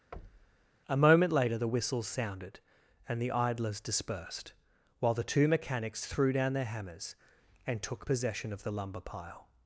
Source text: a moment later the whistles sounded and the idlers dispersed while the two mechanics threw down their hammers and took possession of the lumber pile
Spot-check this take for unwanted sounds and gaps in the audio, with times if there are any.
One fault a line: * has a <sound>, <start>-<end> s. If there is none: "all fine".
* has a thud, 0.1-0.7 s